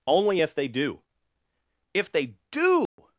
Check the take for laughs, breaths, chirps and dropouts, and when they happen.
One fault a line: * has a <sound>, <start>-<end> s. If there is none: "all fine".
* has a dropout, 2.9-3.0 s